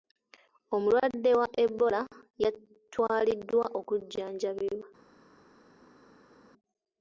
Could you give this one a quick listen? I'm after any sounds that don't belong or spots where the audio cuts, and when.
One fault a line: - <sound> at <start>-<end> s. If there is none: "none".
none